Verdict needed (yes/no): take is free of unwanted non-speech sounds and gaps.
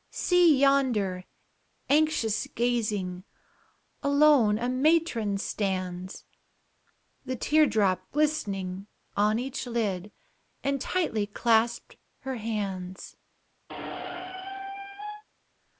no